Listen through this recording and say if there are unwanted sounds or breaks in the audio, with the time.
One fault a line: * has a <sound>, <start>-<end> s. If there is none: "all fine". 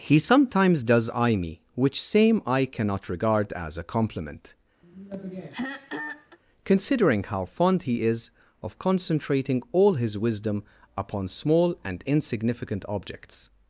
* has a throat clearing, 4.8-6.4 s